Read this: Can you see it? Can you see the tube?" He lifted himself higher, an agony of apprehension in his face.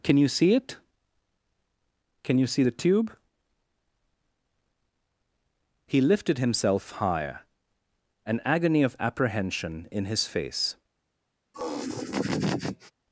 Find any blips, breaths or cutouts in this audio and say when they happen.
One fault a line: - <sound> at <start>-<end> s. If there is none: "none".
- laugh at 11.5-12.9 s